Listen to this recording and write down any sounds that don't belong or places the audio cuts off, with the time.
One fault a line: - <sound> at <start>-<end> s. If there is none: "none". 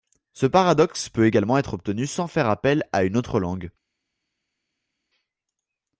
none